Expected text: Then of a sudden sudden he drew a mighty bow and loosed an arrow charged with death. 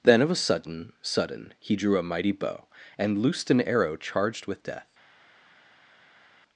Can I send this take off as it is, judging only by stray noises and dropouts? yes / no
yes